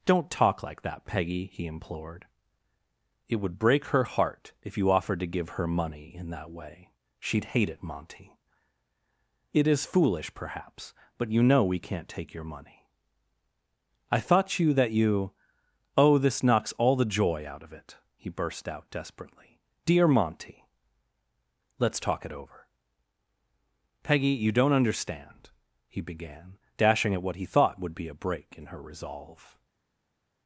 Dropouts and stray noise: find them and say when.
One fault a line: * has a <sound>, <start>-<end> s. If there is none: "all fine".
all fine